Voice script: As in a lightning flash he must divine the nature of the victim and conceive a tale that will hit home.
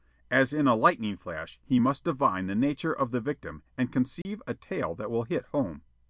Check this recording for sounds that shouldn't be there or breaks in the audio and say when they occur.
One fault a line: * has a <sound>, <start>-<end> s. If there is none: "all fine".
* has a dropout, 4.2-4.3 s